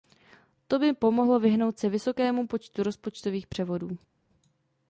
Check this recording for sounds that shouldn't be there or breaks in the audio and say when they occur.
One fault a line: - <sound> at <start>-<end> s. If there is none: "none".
none